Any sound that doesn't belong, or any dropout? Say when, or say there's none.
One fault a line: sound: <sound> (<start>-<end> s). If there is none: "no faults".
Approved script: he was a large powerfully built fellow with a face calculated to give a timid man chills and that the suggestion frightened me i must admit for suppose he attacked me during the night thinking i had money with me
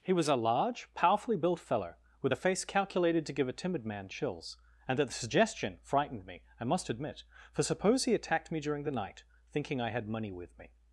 no faults